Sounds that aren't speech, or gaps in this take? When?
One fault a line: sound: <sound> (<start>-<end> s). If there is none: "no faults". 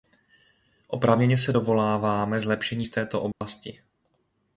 sound: dropout (3.3-3.4 s)